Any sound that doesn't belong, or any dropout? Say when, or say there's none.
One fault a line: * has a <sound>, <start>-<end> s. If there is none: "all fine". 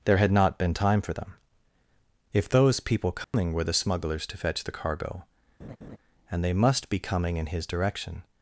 * has a dropout, 3.2-3.3 s
* has a laugh, 5.6-6.0 s